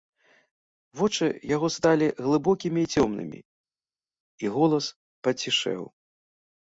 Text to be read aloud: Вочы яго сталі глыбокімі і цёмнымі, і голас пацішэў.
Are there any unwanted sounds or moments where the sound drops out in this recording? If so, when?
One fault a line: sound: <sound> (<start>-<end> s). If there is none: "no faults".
no faults